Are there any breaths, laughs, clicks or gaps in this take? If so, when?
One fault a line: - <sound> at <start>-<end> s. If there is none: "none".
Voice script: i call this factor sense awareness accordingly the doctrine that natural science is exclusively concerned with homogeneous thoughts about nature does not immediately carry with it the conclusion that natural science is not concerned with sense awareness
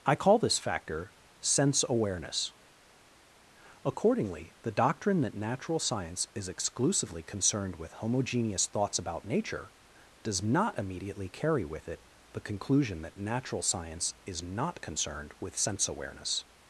none